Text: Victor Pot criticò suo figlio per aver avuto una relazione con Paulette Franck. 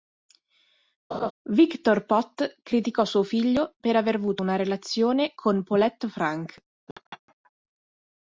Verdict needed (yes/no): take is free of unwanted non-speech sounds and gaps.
no